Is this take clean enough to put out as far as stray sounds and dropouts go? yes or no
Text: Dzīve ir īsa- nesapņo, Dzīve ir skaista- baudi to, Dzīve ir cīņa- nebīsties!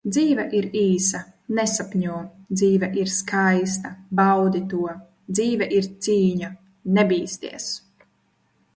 yes